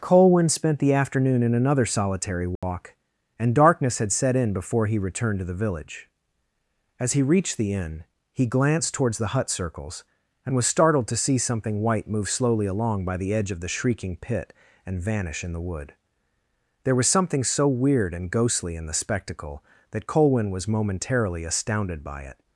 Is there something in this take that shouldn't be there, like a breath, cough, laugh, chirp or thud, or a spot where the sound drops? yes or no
yes